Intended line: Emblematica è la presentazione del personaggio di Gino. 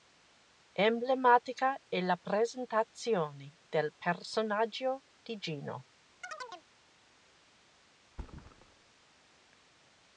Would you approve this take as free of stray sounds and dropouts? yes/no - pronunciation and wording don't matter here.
no